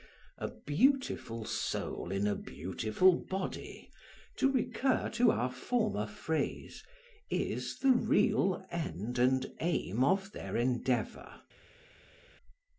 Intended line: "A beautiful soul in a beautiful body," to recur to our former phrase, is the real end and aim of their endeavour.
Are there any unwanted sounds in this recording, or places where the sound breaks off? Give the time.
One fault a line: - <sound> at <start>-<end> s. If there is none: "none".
none